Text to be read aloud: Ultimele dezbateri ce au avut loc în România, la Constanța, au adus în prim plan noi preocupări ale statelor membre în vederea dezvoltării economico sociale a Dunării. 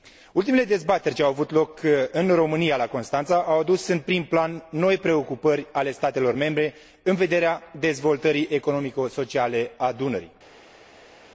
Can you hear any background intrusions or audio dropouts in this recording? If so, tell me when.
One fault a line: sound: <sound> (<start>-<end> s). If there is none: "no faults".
no faults